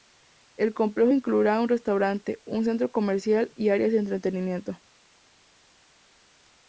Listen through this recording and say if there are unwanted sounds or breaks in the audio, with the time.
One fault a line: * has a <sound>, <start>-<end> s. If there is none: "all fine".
all fine